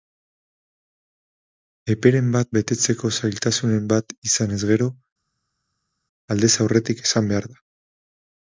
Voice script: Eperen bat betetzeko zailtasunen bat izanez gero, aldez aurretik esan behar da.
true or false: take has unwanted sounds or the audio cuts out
false